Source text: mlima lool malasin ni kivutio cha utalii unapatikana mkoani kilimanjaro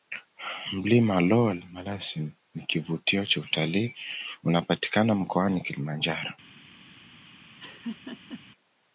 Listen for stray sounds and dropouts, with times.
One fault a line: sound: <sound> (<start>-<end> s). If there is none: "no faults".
sound: laugh (7.6-8.4 s)